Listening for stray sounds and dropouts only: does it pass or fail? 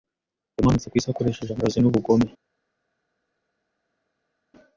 pass